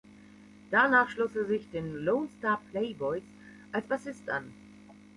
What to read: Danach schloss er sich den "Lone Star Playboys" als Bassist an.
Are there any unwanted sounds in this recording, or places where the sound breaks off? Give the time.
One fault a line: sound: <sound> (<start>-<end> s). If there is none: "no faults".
no faults